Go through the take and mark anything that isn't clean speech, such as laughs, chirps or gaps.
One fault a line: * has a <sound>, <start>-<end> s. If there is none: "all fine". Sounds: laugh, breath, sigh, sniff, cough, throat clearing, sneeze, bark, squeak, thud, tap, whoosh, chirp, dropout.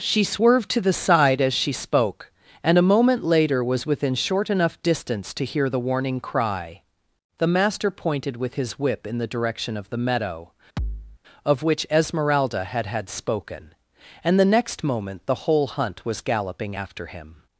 * has a thud, 10.8-11.2 s